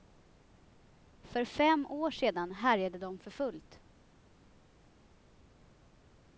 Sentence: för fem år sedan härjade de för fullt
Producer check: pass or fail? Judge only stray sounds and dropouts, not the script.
pass